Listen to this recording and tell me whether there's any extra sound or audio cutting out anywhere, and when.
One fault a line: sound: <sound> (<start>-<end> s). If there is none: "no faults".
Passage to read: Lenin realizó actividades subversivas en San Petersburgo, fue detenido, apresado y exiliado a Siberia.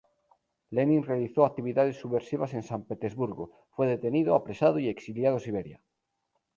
no faults